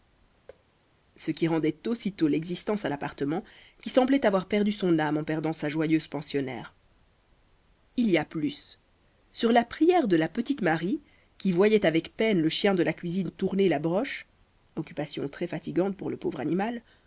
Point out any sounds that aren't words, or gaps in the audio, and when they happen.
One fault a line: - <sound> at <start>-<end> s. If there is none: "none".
- thud at 0.5-0.6 s